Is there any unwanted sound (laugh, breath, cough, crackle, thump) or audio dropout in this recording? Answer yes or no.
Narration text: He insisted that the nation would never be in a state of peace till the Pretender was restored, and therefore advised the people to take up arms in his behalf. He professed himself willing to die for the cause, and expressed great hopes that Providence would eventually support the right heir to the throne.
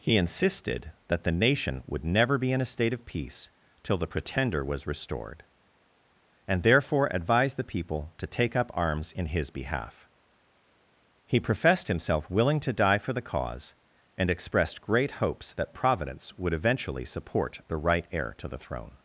no